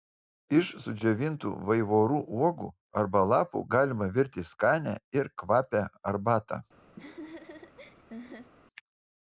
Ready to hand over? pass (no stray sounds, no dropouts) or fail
fail